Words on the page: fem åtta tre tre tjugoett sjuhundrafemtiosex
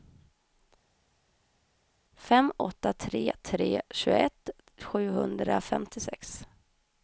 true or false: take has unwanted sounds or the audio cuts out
false